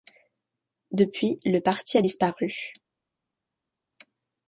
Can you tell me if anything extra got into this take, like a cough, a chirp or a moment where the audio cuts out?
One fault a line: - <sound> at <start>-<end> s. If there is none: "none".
none